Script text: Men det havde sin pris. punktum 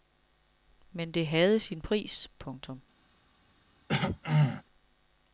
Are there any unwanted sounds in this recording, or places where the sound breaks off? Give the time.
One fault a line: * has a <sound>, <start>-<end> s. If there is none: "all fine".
* has a throat clearing, 3.9-4.6 s